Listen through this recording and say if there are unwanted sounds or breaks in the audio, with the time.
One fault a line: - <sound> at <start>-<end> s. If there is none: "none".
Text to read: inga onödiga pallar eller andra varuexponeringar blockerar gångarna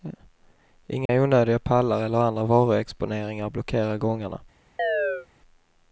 - dropout at 1.1-1.1 s
- chirp at 4.8-5.3 s